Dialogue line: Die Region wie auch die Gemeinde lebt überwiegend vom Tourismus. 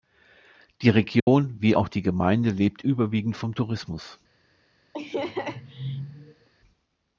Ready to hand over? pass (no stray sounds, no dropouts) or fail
fail